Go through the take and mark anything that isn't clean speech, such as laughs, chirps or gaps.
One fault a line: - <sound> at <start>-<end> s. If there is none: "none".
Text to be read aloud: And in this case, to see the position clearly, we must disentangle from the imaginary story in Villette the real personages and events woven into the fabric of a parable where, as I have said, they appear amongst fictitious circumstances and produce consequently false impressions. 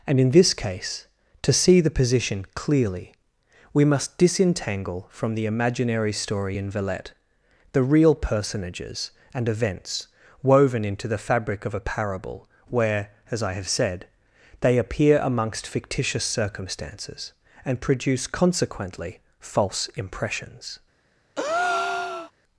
- breath at 21.4-22.3 s